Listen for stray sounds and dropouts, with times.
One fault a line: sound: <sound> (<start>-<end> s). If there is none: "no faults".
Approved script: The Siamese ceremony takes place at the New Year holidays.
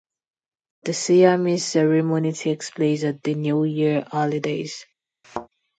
sound: thud (5.2-5.5 s)